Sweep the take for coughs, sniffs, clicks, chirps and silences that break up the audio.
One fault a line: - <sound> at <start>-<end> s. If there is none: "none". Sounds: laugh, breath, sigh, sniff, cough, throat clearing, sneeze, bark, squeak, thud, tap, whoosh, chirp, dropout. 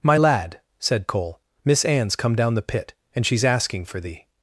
none